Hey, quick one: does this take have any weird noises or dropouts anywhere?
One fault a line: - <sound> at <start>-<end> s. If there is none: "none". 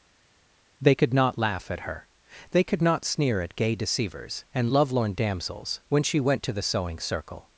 none